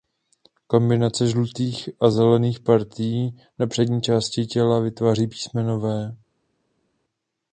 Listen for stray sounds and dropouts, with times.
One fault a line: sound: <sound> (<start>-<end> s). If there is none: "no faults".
no faults